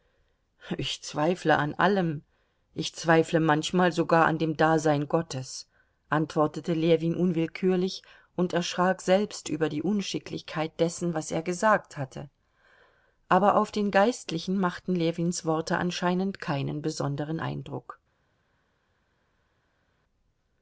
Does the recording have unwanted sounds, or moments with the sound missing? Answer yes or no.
no